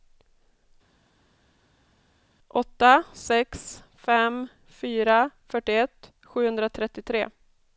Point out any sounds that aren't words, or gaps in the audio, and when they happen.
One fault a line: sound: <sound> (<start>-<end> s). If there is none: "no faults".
no faults